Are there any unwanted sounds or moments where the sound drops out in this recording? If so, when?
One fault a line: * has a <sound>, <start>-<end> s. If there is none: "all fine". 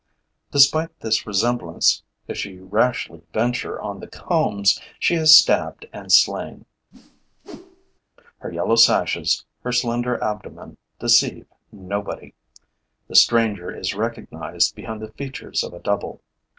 * has a whoosh, 6.9-8.0 s